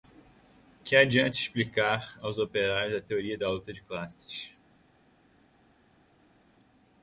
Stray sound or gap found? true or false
false